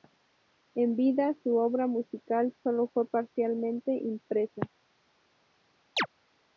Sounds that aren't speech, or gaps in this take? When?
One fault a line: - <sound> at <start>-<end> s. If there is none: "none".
- chirp at 6.0-6.1 s